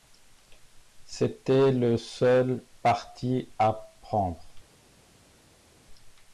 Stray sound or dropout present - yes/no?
no